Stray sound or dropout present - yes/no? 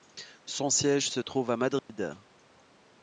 yes